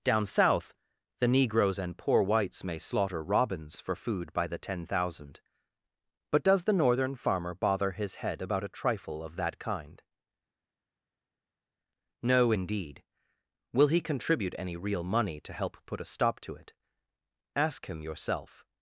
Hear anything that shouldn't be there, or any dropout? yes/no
no